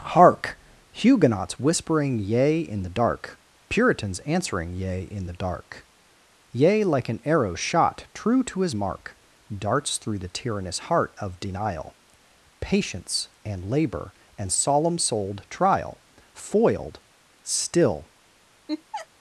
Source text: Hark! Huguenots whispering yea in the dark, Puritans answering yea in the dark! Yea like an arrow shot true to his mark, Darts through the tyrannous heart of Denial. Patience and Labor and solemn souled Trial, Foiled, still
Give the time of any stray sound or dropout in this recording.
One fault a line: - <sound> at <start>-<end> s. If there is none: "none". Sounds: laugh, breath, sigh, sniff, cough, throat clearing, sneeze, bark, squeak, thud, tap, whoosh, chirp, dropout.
- laugh at 18.7-19.1 s